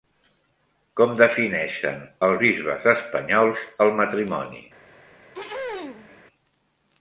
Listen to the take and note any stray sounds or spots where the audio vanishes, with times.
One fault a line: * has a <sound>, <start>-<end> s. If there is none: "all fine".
* has a throat clearing, 5.3-6.2 s